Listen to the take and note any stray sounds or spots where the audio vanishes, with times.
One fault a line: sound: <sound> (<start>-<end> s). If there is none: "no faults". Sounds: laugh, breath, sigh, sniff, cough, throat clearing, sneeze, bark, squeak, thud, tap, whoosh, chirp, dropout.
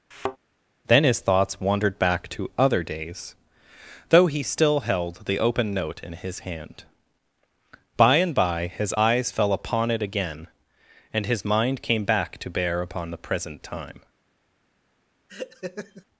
sound: thud (0.1-0.4 s)
sound: laugh (15.3-16.0 s)